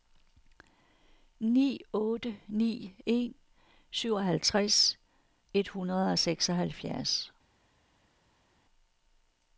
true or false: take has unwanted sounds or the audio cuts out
false